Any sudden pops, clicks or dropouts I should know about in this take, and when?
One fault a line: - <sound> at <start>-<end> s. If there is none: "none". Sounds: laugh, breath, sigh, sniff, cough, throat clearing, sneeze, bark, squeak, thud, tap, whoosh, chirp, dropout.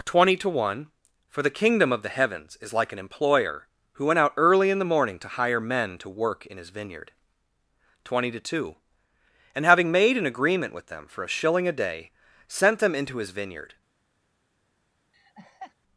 - laugh at 15.1-15.7 s